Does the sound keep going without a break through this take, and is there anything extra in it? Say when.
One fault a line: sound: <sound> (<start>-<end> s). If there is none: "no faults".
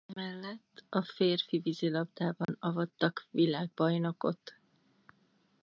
sound: dropout (2.4-2.5 s)